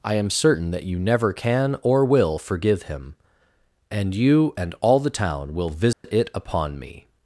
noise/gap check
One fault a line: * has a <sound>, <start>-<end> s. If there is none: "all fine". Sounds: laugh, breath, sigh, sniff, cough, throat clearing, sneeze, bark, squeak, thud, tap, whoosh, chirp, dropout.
* has a dropout, 5.9-6.0 s